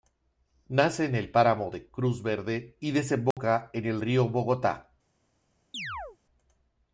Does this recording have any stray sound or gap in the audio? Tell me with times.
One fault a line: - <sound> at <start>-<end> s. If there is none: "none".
- dropout at 3.3-3.4 s
- chirp at 5.7-6.2 s